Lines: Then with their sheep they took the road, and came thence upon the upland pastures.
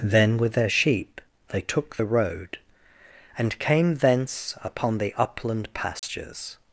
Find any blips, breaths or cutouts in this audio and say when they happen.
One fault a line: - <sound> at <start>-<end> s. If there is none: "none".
- dropout at 6.0-6.0 s